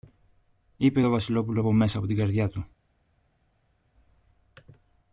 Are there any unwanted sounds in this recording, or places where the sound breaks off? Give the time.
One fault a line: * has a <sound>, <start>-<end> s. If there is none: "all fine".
all fine